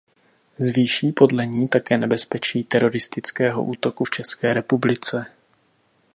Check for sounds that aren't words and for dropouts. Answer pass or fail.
pass